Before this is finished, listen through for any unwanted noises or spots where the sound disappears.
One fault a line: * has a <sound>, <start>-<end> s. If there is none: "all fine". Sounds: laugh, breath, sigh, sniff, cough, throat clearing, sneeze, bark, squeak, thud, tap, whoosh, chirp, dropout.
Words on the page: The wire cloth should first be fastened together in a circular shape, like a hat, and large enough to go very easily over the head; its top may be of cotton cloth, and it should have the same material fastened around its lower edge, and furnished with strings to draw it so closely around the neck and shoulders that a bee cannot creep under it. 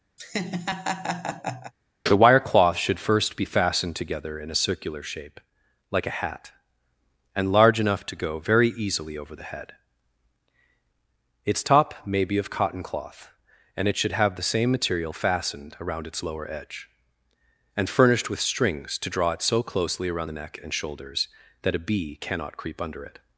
* has a laugh, 0.2-1.7 s